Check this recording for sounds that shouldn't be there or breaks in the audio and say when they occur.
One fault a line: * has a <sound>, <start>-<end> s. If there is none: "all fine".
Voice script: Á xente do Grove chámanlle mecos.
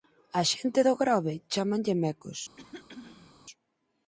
* has a throat clearing, 2.6-3.3 s